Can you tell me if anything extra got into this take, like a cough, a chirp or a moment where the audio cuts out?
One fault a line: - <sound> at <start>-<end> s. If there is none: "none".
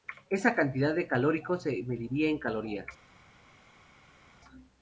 none